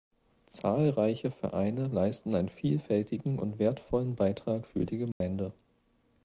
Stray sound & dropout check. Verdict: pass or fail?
fail